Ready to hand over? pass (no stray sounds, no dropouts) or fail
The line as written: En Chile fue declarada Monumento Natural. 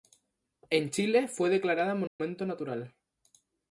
fail